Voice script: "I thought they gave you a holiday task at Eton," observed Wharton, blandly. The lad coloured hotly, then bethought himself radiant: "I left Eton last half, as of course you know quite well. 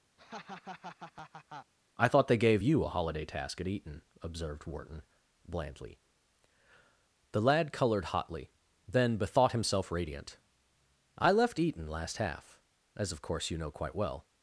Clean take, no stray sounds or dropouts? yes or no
no